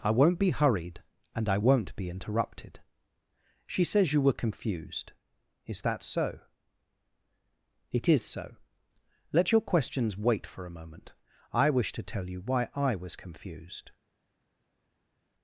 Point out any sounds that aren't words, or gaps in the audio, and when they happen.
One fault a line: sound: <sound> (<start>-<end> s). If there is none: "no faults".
no faults